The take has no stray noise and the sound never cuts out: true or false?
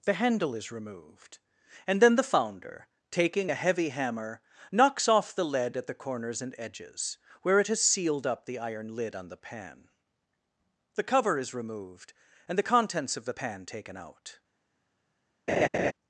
false